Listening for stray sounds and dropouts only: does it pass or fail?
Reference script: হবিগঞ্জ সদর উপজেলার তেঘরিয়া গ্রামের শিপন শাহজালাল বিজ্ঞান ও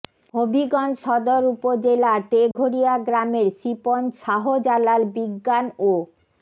fail